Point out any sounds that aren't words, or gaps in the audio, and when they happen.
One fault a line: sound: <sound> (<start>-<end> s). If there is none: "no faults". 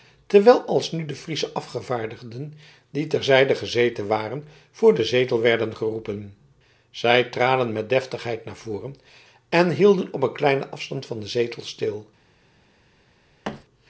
sound: thud (13.4-13.6 s)